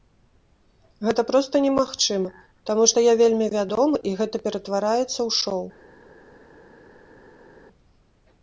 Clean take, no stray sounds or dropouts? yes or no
yes